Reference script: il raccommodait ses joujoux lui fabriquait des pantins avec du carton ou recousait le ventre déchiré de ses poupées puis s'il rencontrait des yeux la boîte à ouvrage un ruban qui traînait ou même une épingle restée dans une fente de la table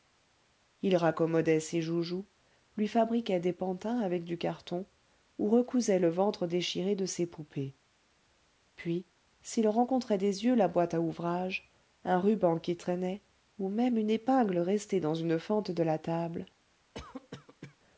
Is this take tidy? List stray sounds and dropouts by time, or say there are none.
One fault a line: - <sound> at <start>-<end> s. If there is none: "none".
- cough at 16.9-17.8 s